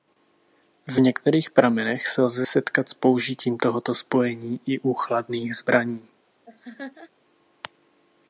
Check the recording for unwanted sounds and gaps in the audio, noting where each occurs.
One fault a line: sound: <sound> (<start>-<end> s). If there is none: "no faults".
sound: laugh (6.4-7.1 s)